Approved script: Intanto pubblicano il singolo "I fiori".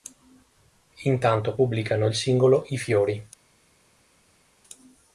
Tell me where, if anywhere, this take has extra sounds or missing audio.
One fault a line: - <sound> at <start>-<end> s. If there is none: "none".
none